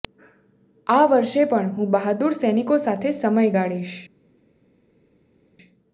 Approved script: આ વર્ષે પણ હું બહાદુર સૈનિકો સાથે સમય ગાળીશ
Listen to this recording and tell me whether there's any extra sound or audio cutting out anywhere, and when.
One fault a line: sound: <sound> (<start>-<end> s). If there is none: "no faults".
no faults